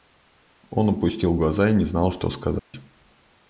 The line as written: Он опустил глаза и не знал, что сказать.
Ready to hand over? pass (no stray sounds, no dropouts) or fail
fail